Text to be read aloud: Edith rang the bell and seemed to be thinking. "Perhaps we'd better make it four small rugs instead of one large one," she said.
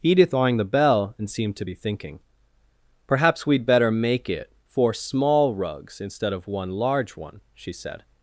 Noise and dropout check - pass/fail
pass